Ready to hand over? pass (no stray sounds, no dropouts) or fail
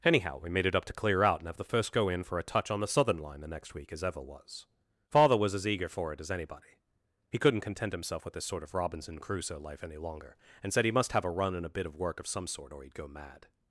pass